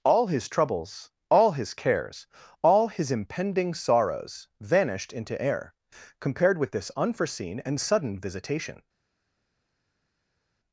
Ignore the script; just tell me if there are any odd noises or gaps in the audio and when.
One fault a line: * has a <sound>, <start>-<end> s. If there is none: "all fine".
all fine